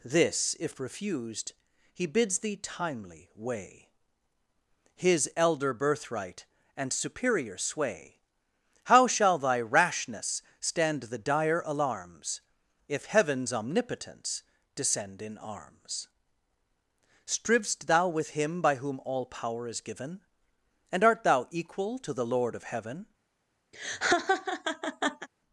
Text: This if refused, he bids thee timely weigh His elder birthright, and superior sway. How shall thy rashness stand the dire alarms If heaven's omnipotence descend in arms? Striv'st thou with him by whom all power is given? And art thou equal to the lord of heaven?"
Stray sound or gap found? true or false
true